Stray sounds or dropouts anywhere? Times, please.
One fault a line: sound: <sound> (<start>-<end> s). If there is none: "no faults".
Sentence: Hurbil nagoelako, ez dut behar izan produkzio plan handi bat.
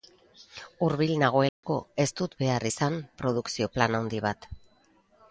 sound: dropout (1.5-1.6 s)